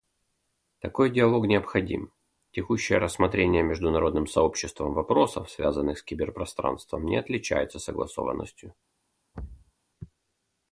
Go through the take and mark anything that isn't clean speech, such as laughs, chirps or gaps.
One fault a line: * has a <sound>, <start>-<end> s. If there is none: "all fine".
* has a thud, 9.3-9.7 s